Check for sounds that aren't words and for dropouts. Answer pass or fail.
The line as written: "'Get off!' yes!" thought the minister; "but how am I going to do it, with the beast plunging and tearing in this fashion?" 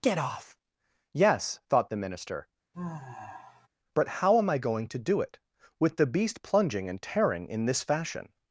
fail